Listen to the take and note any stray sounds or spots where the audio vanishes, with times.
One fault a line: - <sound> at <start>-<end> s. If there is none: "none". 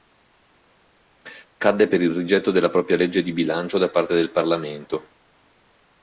none